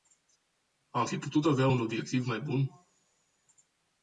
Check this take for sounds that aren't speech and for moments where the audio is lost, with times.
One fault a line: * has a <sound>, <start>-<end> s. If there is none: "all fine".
all fine